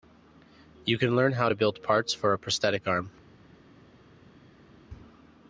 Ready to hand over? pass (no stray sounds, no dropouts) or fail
pass